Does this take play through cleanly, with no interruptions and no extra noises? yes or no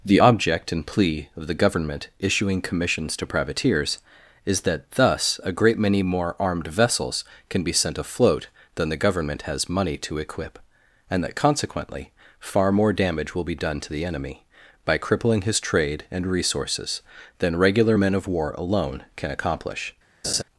no